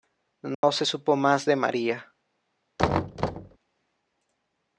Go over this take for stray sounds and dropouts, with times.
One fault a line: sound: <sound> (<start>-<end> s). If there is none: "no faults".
sound: dropout (0.5-0.6 s)
sound: thud (2.8-3.6 s)